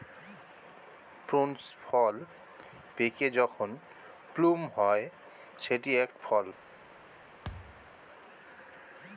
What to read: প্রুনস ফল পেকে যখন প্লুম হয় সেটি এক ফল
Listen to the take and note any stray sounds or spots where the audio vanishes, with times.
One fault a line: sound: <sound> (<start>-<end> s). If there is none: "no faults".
sound: thud (7.4-7.9 s)